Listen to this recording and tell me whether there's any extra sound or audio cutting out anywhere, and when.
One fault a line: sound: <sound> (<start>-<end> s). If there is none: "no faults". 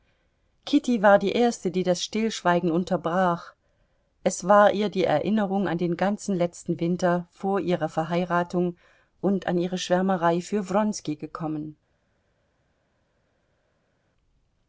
no faults